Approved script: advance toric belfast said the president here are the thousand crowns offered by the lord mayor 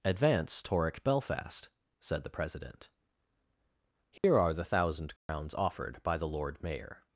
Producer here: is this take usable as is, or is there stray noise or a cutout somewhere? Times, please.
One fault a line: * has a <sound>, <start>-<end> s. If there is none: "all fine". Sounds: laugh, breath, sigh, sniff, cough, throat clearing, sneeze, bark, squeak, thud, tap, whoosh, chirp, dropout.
* has a dropout, 4.2-4.2 s
* has a dropout, 5.2-5.3 s